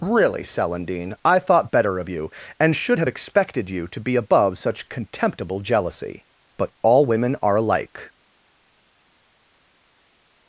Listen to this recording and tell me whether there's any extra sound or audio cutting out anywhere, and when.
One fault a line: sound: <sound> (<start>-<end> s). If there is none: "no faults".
no faults